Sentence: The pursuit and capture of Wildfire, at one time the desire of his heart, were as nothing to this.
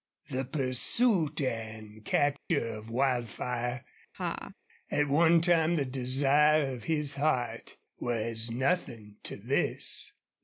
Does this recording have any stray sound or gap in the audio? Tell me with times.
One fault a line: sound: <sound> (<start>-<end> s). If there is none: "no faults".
sound: dropout (2.4-2.5 s)
sound: laugh (4.1-4.5 s)